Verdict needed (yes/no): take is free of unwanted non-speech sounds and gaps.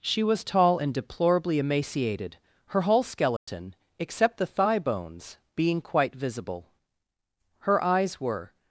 no